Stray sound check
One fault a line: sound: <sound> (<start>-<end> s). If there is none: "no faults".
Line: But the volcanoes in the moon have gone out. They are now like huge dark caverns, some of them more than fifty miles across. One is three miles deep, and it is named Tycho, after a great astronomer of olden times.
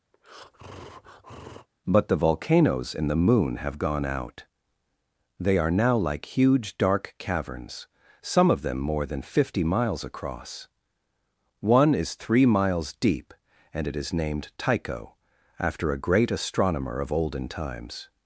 sound: breath (0.1-1.7 s)